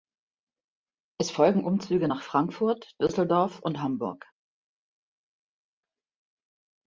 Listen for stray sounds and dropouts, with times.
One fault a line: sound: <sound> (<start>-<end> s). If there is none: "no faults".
no faults